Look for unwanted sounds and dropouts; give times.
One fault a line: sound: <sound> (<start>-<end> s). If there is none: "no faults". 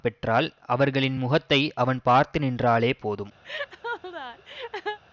sound: laugh (3.4-5.0 s)